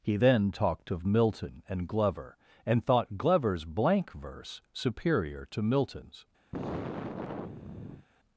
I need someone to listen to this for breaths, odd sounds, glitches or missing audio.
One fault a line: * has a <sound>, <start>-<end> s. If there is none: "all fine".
* has a sigh, 6.5-8.1 s